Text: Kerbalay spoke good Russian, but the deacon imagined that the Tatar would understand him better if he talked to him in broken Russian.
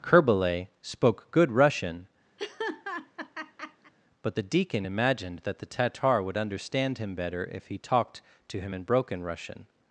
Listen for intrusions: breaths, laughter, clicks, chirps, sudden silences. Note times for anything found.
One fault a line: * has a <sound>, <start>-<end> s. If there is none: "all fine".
* has a laugh, 2.4-3.9 s